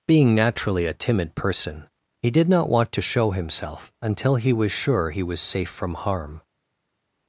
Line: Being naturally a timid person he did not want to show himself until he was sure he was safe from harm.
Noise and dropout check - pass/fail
pass